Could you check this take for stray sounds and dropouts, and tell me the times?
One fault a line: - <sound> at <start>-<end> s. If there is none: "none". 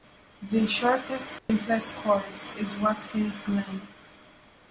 - dropout at 1.4-1.5 s